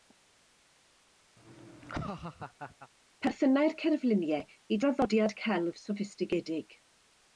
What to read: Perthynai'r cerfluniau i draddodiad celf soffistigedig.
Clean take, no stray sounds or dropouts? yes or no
no